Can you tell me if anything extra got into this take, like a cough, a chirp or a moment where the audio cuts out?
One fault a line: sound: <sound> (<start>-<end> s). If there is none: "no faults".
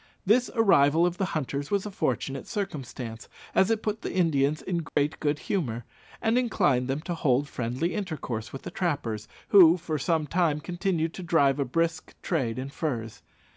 sound: dropout (4.9-5.0 s)